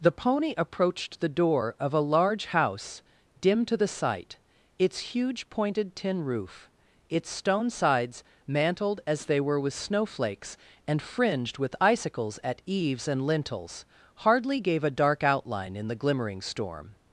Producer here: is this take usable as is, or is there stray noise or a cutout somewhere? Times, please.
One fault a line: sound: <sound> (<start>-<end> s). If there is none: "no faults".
no faults